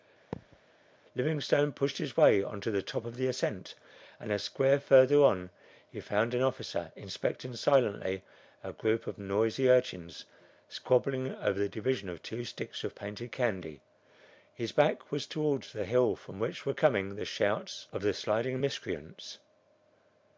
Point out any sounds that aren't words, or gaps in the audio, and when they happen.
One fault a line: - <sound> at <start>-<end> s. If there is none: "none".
- thud at 0.3-0.6 s